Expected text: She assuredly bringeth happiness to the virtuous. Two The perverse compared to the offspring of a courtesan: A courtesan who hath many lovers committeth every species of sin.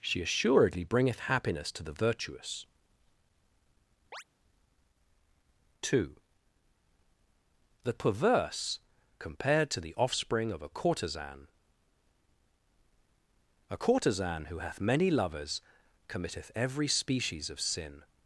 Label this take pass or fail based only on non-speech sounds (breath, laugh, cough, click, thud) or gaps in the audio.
fail